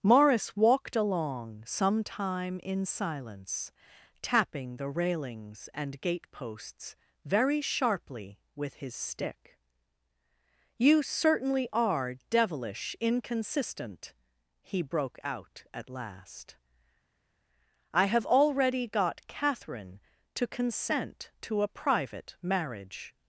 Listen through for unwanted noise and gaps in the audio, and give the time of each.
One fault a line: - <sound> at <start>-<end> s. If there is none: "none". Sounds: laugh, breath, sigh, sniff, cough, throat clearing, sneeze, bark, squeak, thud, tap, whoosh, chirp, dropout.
none